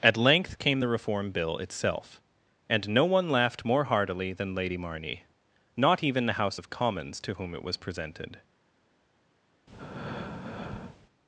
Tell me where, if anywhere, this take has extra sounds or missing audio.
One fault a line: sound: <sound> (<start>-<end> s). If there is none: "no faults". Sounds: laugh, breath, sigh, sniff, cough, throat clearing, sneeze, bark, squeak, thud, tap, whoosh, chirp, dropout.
sound: breath (9.7-11.1 s)